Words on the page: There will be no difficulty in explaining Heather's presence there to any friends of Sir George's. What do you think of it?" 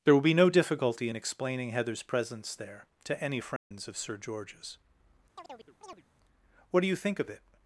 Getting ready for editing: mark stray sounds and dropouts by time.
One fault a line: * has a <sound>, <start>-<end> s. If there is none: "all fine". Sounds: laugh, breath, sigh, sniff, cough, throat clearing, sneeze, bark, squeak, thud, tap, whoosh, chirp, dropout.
* has a dropout, 3.6-3.7 s
* has a chirp, 5.3-6.0 s